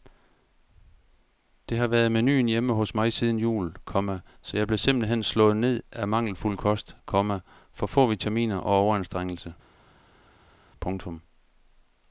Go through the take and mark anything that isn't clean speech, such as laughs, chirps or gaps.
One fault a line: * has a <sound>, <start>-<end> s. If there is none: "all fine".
all fine